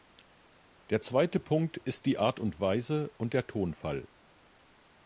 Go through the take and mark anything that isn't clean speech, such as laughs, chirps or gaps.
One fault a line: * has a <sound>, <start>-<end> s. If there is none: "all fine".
all fine